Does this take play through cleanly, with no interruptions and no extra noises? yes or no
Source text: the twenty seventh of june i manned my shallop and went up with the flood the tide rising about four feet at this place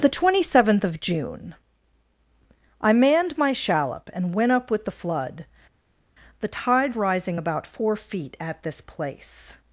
yes